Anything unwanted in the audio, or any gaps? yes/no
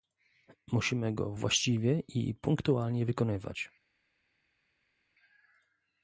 no